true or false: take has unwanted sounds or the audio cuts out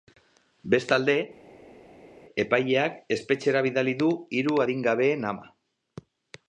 false